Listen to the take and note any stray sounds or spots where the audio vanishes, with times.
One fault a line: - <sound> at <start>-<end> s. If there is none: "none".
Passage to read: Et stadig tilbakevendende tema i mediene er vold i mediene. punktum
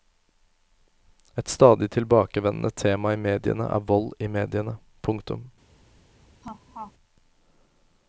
- laugh at 6.4-6.9 s